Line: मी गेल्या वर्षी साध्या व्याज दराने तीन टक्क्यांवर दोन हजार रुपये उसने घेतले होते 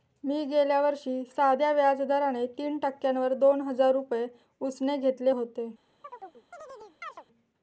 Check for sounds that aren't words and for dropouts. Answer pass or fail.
fail